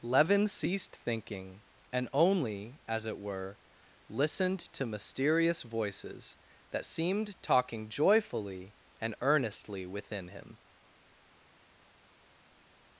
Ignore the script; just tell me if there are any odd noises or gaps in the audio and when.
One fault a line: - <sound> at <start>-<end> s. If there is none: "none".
none